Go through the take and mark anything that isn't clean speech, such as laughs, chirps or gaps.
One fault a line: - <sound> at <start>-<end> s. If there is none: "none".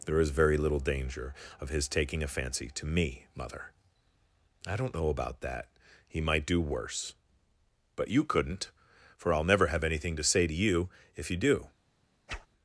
- whoosh at 12.3-12.5 s